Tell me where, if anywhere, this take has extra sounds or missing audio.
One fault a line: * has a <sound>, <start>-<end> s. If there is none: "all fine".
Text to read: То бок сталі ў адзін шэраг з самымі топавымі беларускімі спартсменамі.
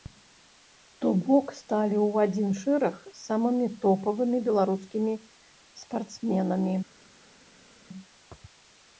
all fine